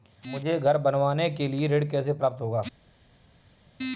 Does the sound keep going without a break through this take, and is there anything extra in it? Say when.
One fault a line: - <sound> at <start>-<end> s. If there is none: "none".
none